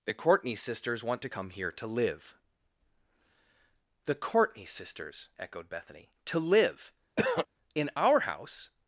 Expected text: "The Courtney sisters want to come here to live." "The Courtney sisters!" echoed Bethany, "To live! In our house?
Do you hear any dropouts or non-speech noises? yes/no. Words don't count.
yes